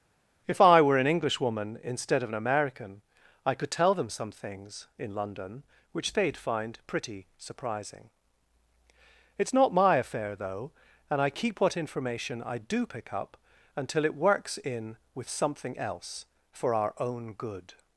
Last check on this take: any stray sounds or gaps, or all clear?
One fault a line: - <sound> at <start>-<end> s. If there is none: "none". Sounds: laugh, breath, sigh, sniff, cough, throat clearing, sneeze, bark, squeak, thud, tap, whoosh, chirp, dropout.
none